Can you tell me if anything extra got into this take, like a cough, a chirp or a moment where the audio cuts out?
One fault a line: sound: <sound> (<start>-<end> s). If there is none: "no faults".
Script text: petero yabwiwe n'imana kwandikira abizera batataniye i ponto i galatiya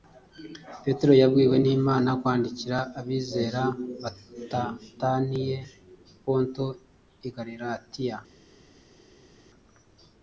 no faults